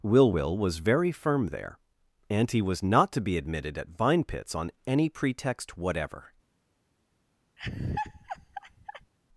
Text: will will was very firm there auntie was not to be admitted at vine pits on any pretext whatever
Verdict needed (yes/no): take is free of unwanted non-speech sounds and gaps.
no